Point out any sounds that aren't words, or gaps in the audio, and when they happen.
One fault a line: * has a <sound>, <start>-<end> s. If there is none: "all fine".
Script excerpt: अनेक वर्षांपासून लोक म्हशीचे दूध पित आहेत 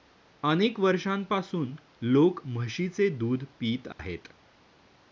* has a dropout, 3.9-4.0 s